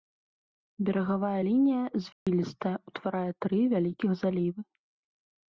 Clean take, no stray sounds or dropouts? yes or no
no